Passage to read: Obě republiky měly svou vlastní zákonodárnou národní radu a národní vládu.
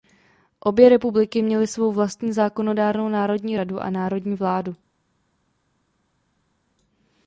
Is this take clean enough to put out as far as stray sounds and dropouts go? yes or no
yes